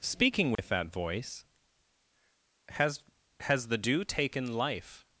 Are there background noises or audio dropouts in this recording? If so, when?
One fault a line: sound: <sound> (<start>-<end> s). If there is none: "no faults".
sound: dropout (0.6-0.6 s)